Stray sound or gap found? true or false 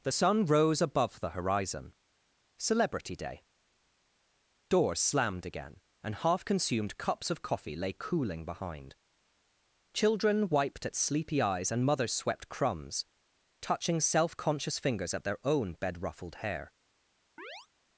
true